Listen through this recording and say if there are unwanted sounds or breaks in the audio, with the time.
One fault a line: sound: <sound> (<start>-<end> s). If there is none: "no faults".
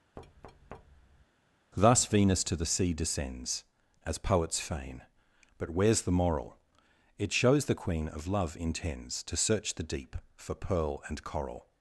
sound: thud (0.2-1.3 s)